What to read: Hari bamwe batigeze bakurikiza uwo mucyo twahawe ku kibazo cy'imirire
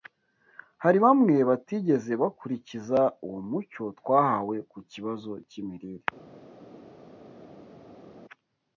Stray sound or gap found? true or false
false